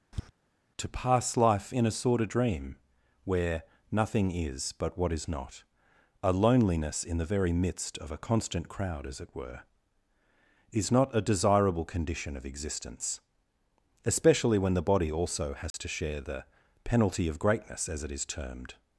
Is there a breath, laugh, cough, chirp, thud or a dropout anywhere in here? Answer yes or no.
yes